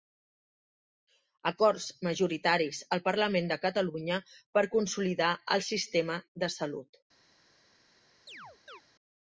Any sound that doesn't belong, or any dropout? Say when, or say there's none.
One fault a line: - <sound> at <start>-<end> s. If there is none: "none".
- chirp at 8.3-8.8 s